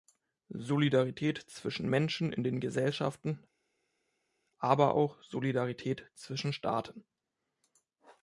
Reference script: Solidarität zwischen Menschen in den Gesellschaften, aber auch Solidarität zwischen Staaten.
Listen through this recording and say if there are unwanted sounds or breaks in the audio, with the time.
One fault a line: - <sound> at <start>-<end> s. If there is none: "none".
none